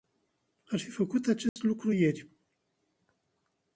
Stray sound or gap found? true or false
true